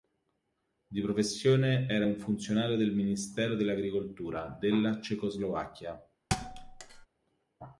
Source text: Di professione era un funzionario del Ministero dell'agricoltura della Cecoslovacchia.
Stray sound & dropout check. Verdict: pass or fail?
fail